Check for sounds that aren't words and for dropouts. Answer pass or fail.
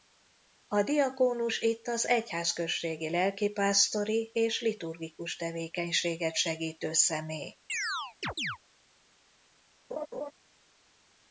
fail